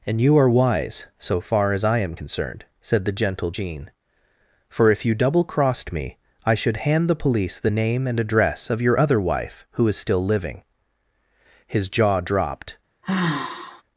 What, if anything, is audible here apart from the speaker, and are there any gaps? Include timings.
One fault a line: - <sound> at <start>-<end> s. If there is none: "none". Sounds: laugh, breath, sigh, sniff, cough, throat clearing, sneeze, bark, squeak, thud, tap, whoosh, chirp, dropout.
- sigh at 13.0-13.8 s